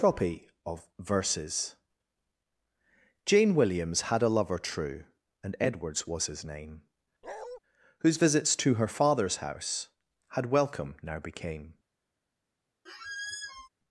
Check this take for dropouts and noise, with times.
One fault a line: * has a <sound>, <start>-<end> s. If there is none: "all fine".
* has a bark, 7.2-7.6 s
* has a squeak, 12.9-13.7 s